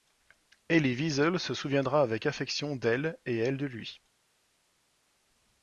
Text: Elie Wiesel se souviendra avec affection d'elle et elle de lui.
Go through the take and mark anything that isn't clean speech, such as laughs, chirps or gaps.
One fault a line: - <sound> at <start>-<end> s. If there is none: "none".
none